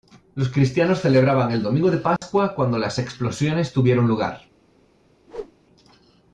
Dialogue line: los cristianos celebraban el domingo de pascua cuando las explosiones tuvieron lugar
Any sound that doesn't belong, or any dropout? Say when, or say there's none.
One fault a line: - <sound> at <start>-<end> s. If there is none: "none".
- dropout at 2.2-2.2 s
- whoosh at 5.3-5.5 s